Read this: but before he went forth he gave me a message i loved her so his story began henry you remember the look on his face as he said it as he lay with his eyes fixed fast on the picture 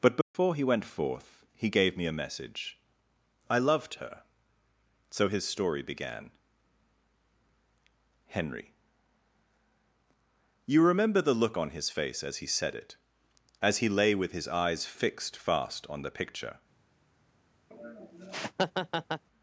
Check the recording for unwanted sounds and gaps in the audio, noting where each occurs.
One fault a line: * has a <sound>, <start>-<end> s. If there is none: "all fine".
* has a dropout, 0.2-0.3 s
* has a laugh, 17.7-19.2 s